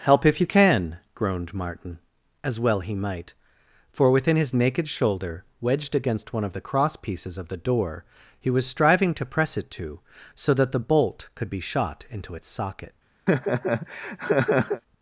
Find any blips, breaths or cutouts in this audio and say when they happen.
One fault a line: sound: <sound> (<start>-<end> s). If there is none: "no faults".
sound: laugh (13.3-14.8 s)